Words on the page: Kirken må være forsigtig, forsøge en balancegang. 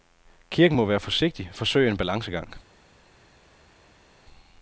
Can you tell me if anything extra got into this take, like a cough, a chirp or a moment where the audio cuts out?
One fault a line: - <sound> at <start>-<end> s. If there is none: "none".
none